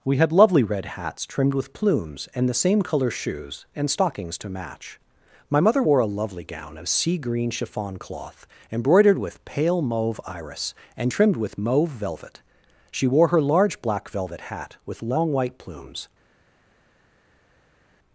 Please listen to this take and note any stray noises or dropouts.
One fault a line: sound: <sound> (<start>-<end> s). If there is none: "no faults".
no faults